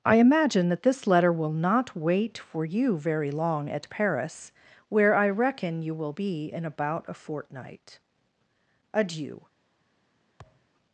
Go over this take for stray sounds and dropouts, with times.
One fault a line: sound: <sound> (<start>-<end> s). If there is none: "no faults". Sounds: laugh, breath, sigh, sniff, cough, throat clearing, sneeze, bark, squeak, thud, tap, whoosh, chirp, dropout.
sound: thud (10.4-10.7 s)